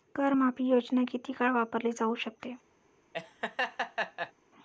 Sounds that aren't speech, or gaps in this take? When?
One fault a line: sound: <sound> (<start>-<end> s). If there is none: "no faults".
sound: laugh (3.1-4.3 s)